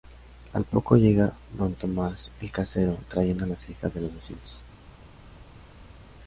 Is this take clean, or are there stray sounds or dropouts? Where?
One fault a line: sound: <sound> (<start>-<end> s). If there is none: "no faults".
no faults